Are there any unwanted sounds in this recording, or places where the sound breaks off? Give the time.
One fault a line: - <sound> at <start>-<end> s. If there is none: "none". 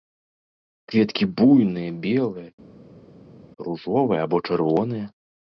none